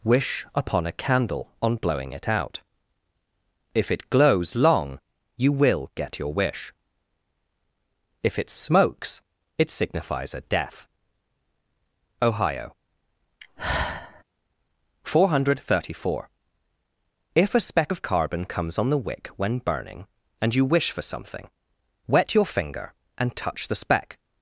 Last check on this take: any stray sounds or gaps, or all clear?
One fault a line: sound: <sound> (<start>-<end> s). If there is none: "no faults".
sound: sigh (13.4-14.2 s)